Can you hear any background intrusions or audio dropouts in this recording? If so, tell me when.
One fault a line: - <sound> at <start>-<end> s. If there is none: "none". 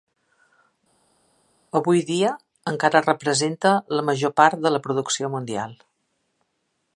none